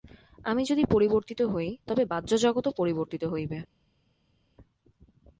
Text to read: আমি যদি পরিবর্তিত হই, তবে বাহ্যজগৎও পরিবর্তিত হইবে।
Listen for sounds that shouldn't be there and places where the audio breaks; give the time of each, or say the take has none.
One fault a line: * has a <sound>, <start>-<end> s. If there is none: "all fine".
all fine